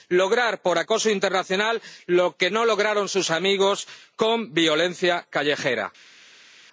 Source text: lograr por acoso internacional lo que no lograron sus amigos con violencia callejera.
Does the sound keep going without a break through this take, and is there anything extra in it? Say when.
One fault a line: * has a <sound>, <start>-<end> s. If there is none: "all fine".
all fine